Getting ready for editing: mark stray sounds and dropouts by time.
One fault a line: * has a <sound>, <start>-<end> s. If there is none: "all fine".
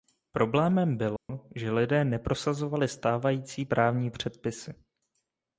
* has a dropout, 1.2-1.3 s